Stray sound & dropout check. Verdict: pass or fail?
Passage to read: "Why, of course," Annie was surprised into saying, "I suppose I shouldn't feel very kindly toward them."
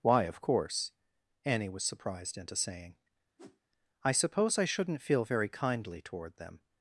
fail